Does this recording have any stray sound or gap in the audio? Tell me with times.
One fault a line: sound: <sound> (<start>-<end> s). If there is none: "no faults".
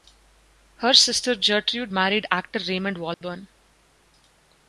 sound: dropout (3.1-3.2 s)